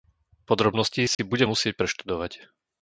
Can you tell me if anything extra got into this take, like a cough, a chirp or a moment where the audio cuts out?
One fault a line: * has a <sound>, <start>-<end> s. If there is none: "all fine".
* has a dropout, 1.1-1.2 s